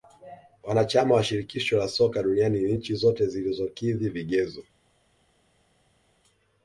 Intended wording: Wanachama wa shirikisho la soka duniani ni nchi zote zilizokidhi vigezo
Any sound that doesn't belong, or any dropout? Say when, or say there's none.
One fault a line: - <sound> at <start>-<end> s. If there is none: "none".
none